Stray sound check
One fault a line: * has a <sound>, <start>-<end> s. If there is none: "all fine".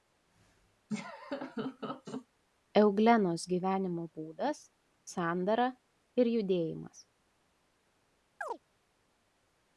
* has a laugh, 0.9-2.3 s
* has a chirp, 8.4-8.6 s